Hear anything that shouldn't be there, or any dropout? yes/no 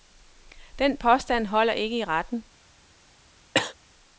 yes